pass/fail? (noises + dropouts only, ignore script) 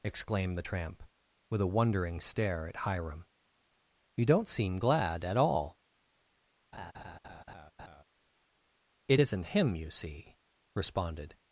fail